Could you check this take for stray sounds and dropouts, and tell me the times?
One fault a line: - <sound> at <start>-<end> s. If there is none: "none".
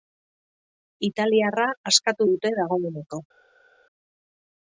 none